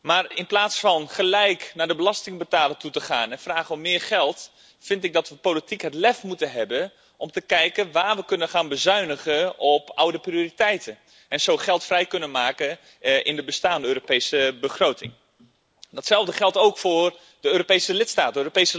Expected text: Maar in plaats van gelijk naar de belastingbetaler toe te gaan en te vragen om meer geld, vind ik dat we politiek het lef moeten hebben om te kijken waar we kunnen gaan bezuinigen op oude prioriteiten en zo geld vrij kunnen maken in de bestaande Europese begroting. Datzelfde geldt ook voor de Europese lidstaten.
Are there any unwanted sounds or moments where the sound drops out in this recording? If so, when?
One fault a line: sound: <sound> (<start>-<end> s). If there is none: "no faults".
no faults